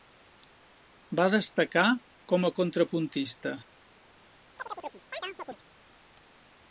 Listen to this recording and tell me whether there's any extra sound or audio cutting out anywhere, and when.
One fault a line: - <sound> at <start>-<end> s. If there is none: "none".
- chirp at 4.6-5.6 s